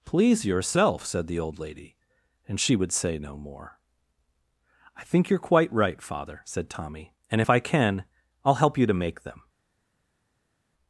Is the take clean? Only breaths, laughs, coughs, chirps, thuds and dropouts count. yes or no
yes